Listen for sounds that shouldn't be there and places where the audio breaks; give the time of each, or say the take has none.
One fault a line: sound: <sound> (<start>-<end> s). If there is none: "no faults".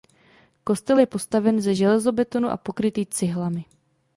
no faults